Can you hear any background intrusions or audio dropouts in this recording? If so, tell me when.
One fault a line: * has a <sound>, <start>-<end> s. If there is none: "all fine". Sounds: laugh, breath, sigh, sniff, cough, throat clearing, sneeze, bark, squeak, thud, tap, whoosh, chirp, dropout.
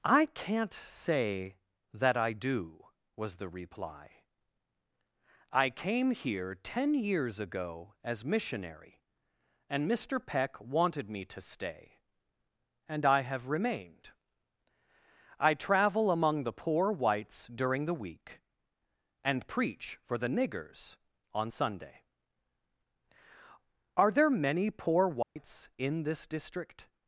* has a dropout, 25.2-25.4 s